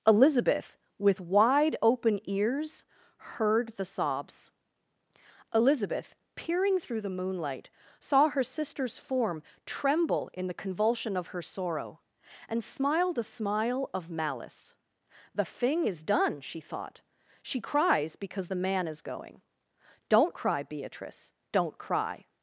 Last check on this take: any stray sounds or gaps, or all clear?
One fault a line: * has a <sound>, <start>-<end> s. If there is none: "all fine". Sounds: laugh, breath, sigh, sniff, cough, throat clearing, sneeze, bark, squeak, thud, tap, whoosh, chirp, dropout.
all fine